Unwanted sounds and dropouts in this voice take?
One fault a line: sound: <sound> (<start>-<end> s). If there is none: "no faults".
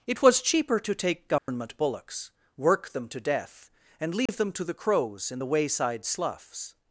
sound: dropout (1.4-1.5 s)
sound: dropout (4.3-4.3 s)